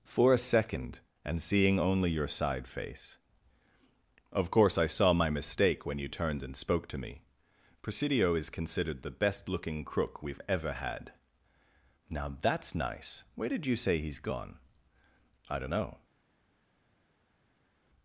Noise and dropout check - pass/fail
pass